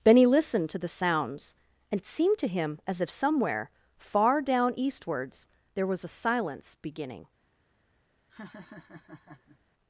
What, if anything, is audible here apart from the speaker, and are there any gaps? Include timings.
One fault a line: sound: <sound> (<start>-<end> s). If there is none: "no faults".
sound: laugh (8.3-9.6 s)